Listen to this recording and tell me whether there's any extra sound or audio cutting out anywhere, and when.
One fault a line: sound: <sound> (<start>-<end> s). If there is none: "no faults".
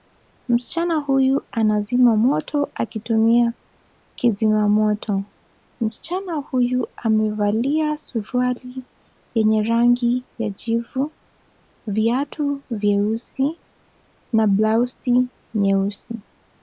no faults